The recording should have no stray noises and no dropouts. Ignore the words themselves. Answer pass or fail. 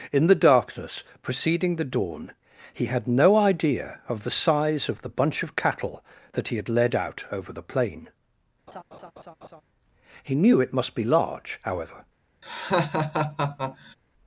fail